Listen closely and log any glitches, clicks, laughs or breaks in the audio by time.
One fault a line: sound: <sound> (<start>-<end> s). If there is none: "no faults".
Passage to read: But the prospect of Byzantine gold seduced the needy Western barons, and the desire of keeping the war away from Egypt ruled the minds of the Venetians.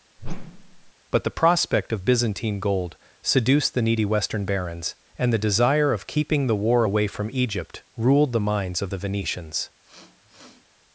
sound: whoosh (0.2-0.9 s)
sound: sniff (9.8-10.7 s)